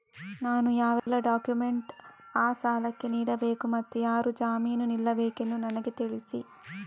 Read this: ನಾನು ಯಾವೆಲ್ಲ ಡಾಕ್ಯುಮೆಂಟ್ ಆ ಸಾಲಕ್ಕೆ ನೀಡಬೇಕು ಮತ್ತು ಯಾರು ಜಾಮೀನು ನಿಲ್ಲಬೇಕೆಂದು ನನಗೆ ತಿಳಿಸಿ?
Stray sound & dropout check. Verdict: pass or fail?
fail